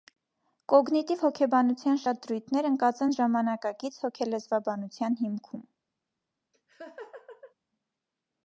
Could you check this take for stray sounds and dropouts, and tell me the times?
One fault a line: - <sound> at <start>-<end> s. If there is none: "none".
- laugh at 6.5-7.5 s